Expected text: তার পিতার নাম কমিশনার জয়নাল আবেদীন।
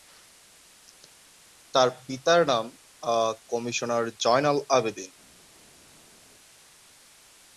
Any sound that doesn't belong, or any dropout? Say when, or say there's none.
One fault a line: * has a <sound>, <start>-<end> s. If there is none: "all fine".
all fine